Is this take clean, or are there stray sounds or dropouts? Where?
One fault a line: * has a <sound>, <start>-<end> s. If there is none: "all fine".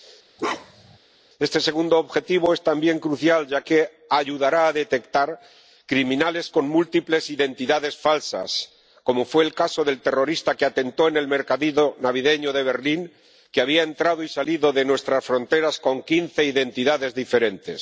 * has a bark, 0.4-1.0 s